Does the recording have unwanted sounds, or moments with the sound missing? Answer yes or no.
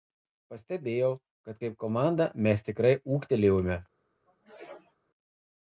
yes